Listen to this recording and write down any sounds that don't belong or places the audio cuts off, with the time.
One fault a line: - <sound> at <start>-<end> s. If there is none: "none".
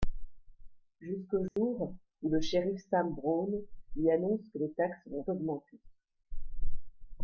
- dropout at 1.5-1.6 s